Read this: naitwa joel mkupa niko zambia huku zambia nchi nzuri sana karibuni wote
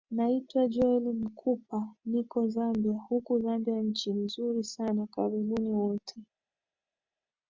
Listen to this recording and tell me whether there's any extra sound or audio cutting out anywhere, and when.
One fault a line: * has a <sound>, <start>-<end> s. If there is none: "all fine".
all fine